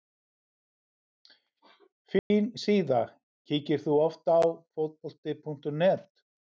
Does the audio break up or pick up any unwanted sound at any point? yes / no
yes